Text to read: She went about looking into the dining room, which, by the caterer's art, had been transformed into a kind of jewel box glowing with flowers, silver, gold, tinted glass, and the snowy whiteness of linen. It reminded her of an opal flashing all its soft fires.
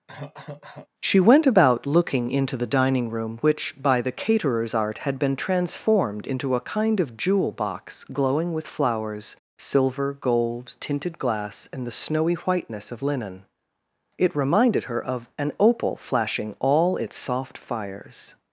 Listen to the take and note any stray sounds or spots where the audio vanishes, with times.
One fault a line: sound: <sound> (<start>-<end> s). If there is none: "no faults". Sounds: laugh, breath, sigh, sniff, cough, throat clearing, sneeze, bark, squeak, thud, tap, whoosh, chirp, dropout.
sound: cough (0.1-0.9 s)